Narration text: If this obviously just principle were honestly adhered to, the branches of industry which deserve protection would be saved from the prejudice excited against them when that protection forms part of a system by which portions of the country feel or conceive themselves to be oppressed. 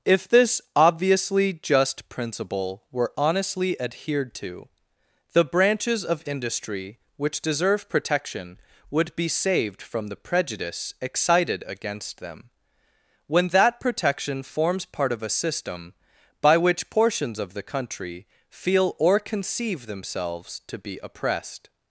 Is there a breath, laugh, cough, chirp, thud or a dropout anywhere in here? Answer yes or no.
no